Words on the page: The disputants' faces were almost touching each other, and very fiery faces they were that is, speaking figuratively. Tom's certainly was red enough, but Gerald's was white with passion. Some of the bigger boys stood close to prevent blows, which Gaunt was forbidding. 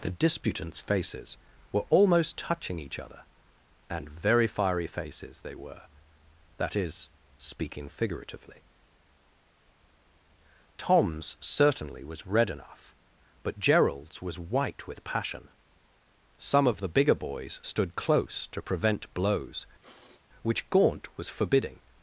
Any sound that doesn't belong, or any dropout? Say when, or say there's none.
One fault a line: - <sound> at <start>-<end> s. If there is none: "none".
- sniff at 19.8-20.3 s